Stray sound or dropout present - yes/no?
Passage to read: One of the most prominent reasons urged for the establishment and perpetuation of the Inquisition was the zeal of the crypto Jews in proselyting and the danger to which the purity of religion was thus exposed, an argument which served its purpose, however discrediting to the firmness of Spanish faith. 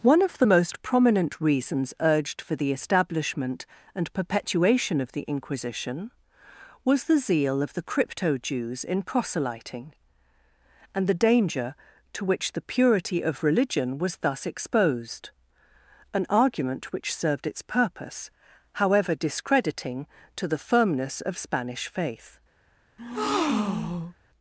yes